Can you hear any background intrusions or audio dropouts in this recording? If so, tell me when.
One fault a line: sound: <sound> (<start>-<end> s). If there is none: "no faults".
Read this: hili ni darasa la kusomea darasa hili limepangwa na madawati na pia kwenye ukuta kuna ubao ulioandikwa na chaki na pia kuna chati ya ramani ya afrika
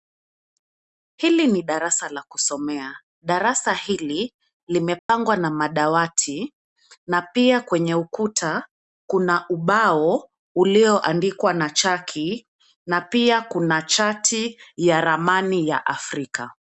sound: dropout (5.0-5.1 s)